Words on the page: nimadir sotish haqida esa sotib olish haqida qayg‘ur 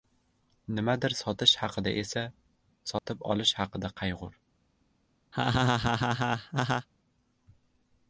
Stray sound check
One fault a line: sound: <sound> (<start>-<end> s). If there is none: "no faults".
sound: dropout (3.0-3.1 s)
sound: laugh (5.3-6.9 s)